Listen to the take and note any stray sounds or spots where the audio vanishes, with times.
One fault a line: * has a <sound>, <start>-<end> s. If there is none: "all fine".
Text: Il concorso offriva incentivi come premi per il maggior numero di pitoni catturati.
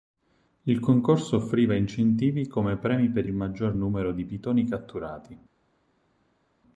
all fine